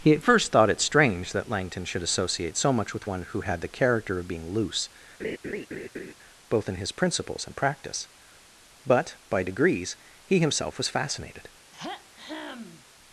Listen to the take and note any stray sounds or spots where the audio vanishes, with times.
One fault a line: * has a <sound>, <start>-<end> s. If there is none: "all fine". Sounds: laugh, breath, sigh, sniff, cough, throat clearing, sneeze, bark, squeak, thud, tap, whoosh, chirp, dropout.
* has a laugh, 5.2-6.1 s
* has a throat clearing, 11.7-12.9 s